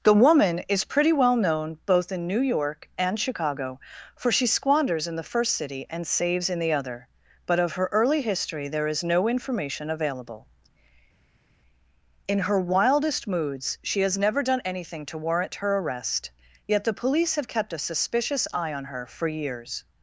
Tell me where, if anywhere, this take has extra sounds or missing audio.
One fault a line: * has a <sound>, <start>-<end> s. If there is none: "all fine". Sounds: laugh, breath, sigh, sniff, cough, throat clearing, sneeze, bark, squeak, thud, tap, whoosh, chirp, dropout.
all fine